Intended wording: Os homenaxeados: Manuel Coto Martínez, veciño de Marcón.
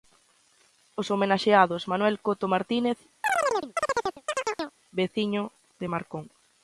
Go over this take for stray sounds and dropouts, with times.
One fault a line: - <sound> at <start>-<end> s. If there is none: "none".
- chirp at 3.2-4.8 s